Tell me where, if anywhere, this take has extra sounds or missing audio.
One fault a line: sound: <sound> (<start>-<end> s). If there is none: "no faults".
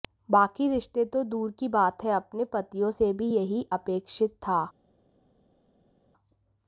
no faults